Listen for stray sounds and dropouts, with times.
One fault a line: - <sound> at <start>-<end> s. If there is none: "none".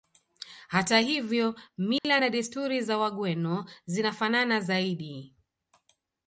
- dropout at 2.0-2.0 s